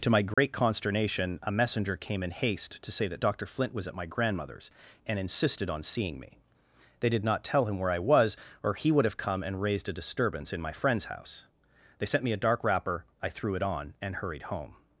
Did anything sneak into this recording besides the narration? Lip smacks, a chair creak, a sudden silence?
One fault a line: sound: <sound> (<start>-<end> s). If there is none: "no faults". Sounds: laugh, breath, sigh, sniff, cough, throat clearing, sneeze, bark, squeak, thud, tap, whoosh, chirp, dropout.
sound: dropout (0.3-0.4 s)